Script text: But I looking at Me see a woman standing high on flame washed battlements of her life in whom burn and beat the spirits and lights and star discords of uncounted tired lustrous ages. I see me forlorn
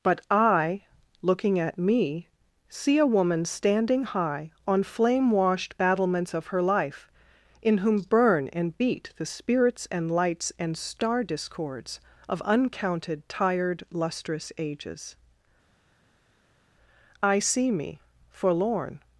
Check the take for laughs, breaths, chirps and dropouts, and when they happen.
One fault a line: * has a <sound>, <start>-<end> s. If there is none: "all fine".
all fine